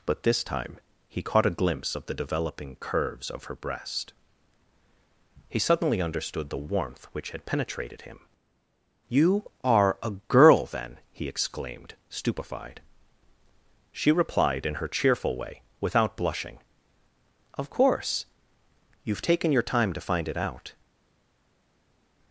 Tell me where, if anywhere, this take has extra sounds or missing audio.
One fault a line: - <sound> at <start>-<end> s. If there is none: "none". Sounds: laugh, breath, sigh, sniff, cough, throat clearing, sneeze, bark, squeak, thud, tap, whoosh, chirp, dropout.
none